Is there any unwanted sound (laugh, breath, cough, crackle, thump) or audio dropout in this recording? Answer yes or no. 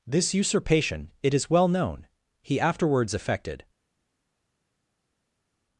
no